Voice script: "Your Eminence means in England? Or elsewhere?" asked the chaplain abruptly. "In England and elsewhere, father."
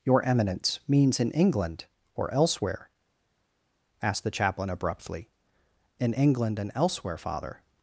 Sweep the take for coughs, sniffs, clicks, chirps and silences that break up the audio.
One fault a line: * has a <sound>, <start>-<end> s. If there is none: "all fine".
all fine